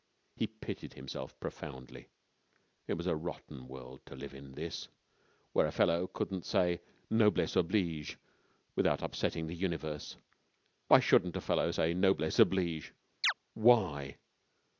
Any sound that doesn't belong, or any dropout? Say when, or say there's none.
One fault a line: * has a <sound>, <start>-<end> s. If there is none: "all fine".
* has a chirp, 13.2-13.3 s